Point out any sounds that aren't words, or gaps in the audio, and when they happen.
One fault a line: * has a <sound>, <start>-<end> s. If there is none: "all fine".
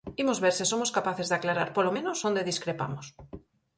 all fine